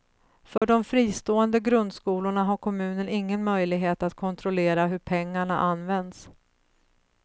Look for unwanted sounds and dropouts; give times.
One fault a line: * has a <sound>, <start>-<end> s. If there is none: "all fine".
* has a dropout, 0.6-0.6 s